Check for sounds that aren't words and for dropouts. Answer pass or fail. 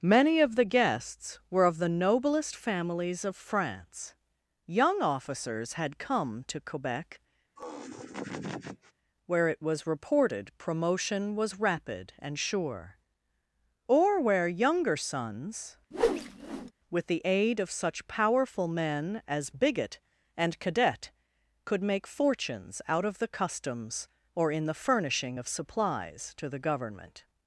fail